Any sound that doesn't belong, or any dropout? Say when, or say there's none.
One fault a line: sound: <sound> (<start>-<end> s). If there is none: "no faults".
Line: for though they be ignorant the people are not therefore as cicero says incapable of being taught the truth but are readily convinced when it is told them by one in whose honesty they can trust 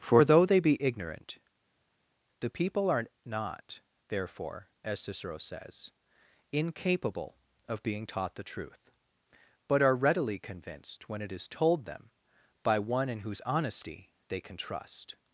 no faults